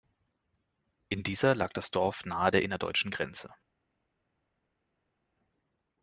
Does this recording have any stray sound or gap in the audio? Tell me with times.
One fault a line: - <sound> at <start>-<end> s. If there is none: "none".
none